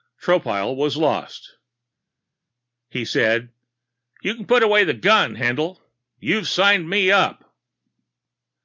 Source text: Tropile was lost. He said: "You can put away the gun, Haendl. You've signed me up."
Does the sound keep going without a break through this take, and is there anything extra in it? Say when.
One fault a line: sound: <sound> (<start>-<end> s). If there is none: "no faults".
no faults